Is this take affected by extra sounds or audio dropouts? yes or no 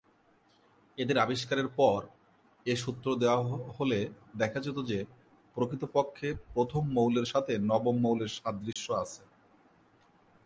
yes